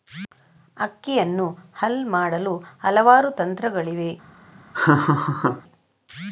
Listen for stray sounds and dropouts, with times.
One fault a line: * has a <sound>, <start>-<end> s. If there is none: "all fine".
* has a laugh, 4.7-5.6 s